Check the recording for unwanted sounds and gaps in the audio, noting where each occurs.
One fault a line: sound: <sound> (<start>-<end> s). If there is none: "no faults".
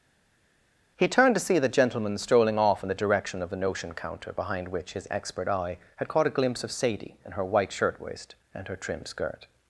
no faults